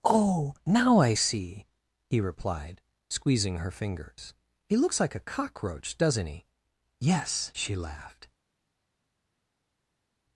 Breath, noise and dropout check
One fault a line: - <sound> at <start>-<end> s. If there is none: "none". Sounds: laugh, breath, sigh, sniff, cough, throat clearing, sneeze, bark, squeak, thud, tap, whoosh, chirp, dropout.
none